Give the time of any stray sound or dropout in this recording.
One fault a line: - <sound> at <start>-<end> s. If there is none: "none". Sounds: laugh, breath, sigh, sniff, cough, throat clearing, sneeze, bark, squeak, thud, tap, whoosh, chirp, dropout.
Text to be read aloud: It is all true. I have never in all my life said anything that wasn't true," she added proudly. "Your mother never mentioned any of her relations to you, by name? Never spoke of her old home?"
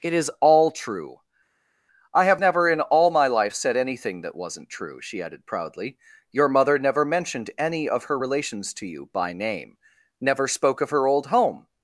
none